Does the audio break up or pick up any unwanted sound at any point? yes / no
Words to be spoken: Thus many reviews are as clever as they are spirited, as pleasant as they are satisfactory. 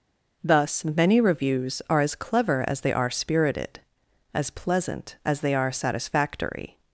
no